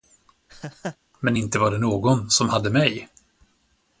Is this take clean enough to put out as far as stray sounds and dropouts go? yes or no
no